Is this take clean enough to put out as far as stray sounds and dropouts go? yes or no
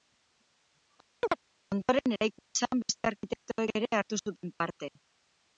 no